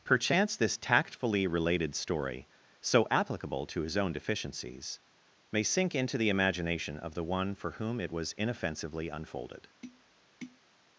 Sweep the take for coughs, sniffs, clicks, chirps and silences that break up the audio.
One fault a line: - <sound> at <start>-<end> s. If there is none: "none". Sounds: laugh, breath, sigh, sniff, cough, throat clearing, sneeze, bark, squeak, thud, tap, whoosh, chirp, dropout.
- tap at 9.8-10.6 s